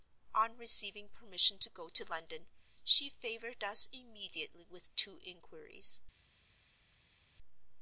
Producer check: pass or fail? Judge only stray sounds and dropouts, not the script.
pass